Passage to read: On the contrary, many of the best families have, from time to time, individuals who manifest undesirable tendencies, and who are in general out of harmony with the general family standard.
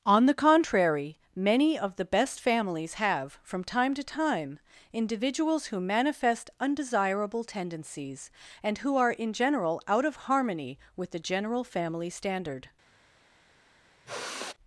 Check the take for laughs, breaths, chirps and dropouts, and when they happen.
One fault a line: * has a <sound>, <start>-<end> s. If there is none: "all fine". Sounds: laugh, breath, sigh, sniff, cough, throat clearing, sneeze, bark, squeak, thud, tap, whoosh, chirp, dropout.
* has a sigh, 14.1-14.5 s